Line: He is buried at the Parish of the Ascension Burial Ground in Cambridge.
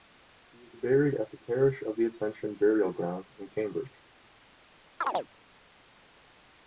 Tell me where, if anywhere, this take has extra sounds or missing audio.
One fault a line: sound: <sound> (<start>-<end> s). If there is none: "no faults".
sound: chirp (5.0-5.3 s)